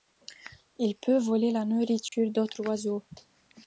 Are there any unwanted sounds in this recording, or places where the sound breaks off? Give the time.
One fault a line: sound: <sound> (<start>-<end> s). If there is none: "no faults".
sound: dropout (2.1-2.1 s)